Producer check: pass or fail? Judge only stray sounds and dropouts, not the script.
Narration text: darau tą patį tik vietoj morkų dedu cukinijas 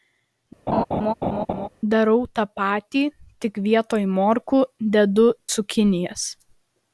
fail